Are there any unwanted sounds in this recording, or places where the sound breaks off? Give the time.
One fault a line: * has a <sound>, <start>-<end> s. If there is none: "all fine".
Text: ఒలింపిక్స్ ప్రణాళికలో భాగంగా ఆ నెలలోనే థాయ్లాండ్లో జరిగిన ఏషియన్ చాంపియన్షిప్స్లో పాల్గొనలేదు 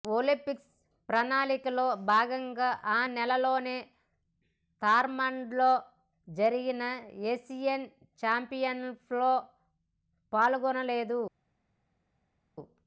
all fine